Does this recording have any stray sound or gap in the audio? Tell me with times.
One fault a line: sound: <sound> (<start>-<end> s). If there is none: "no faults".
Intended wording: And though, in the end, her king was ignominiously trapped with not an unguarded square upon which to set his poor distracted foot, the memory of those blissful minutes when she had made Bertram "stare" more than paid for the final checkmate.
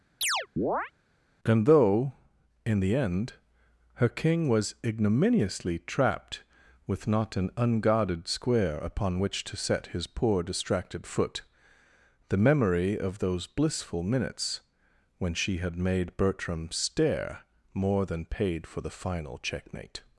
sound: chirp (0.2-0.9 s)